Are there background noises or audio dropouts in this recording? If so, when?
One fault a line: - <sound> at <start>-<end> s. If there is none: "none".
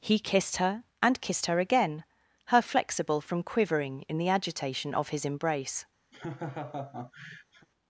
- laugh at 6.1-7.7 s